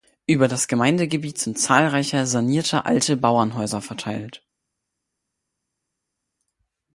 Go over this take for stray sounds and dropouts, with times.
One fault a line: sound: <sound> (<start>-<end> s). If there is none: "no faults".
no faults